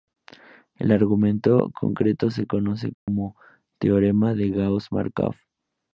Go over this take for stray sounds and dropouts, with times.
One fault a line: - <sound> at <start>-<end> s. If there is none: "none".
- dropout at 2.9-3.1 s